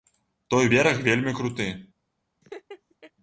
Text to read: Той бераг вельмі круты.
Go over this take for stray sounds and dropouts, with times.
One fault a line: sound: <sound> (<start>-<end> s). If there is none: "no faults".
sound: laugh (2.4-3.1 s)